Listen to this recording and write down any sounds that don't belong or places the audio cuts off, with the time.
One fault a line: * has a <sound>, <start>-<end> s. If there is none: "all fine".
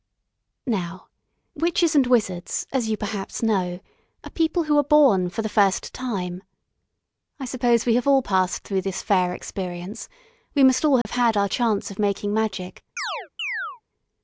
* has a dropout, 11.0-11.1 s
* has a chirp, 13.0-13.8 s